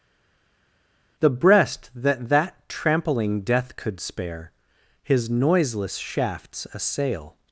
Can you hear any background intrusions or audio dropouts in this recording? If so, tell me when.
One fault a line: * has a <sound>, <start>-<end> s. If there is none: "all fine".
all fine